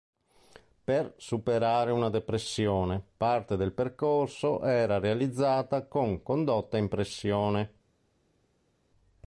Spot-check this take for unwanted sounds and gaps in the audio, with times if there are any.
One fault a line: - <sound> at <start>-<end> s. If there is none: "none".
none